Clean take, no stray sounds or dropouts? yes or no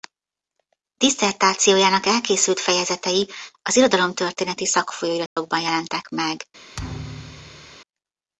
no